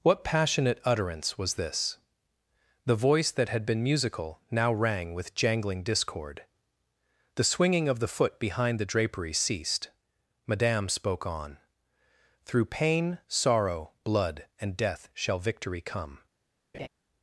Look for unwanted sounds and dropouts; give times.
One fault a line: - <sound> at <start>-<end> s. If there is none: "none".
- laugh at 16.7-16.9 s